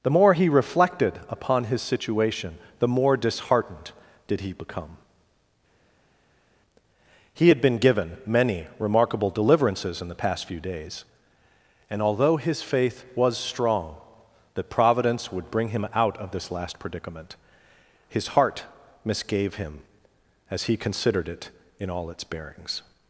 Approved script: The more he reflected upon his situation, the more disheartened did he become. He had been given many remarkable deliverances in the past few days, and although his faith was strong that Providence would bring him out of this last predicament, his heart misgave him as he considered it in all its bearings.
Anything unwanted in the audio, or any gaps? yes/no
no